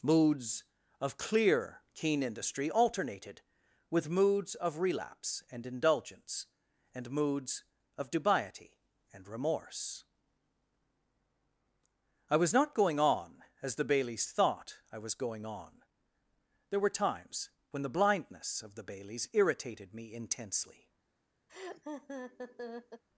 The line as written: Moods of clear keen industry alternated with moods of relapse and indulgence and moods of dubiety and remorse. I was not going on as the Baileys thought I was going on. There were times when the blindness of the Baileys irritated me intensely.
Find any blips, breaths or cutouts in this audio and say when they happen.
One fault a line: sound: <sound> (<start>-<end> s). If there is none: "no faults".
sound: laugh (21.5-23.0 s)